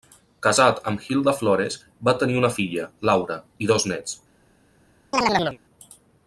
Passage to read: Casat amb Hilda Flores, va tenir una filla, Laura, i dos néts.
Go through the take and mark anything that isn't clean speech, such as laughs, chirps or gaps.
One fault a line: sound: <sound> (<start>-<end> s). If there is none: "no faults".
sound: chirp (5.1-5.6 s)